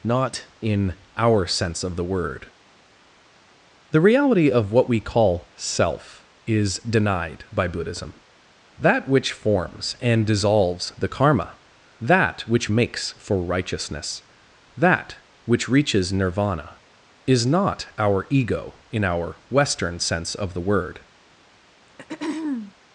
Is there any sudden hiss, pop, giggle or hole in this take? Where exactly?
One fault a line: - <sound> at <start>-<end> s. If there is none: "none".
- throat clearing at 21.9-22.7 s